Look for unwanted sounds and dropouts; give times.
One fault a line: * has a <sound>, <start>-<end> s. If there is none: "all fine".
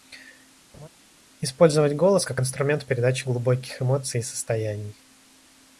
* has a laugh, 0.7-0.9 s